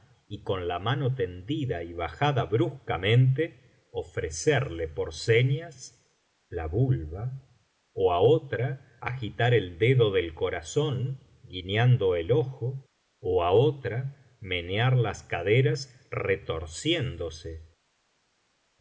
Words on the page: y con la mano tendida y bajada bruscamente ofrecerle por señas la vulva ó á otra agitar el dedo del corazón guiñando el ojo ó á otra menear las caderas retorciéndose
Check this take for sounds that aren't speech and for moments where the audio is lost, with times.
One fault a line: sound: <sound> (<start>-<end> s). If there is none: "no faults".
no faults